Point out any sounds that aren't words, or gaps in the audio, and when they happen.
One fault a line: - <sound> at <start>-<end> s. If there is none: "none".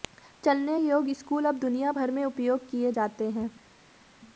none